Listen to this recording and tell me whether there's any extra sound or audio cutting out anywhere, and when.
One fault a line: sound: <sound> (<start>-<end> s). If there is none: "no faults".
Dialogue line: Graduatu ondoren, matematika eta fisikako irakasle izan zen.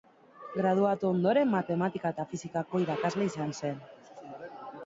no faults